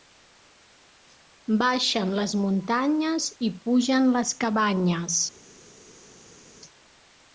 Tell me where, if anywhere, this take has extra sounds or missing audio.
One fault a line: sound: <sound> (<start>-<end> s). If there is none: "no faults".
no faults